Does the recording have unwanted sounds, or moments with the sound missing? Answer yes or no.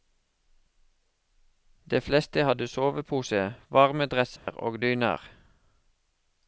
yes